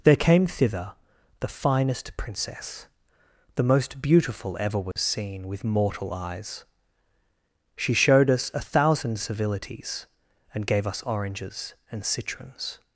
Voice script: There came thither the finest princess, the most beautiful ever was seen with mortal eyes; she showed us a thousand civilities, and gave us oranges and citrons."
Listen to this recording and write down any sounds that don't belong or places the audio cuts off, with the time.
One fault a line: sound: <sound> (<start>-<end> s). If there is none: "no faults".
sound: dropout (4.9-5.0 s)